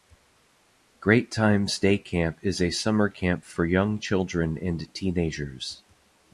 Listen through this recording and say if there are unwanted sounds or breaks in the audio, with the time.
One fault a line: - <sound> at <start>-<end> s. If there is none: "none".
none